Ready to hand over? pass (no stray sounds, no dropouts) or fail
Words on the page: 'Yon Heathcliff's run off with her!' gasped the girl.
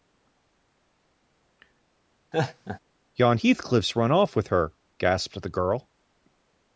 fail